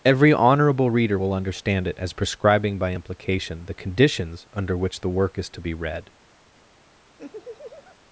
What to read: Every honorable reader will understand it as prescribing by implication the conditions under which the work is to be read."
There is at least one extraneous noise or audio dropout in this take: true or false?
true